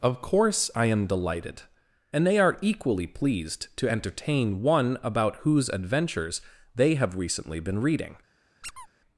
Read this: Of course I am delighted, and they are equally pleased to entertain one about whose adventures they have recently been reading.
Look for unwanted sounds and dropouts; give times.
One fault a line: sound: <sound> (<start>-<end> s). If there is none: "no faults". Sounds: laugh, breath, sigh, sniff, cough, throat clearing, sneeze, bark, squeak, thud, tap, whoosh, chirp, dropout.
sound: squeak (8.6-8.9 s)